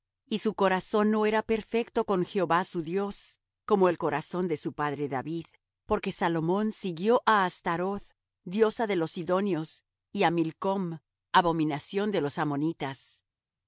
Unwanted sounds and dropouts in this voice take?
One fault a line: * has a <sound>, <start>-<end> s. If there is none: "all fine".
all fine